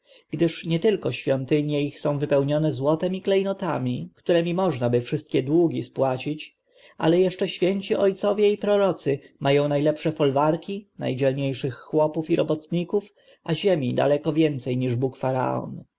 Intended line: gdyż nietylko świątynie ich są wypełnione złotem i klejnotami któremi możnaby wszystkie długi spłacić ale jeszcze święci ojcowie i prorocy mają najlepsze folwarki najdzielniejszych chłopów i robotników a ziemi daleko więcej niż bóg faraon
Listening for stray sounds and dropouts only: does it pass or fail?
pass